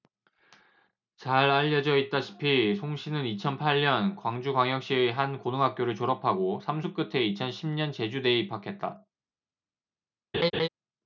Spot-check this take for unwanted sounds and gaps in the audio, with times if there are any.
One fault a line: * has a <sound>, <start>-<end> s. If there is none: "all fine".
* has a laugh, 10.3-10.7 s